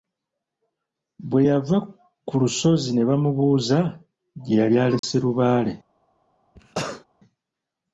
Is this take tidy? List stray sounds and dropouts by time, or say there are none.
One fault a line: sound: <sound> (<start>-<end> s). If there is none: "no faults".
sound: dropout (5.0-5.0 s)
sound: cough (6.6-7.1 s)